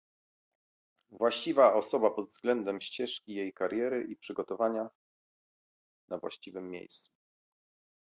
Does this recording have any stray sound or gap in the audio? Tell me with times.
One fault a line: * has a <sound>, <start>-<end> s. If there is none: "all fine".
all fine